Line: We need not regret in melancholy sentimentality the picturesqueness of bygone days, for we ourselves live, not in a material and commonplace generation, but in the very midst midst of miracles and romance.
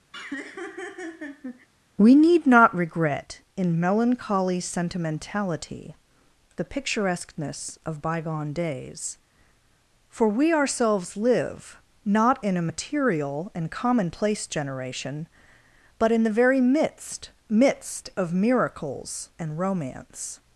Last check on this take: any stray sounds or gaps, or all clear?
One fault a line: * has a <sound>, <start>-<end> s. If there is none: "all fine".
* has a laugh, 0.1-1.7 s